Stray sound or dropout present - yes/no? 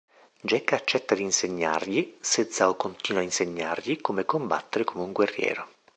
no